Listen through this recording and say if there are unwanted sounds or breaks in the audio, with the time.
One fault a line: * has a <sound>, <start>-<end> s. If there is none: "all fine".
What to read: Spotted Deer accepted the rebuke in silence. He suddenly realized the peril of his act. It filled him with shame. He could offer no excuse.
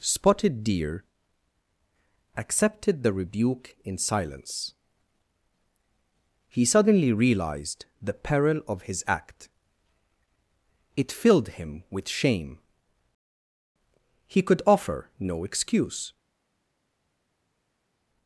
all fine